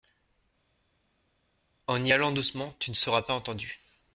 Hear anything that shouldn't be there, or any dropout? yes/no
no